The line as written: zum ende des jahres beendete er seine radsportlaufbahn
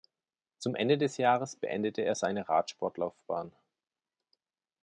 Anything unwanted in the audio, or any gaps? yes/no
no